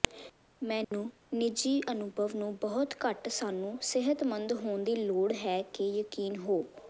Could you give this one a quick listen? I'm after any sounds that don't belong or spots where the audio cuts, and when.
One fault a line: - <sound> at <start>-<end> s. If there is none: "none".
- dropout at 0.8-0.9 s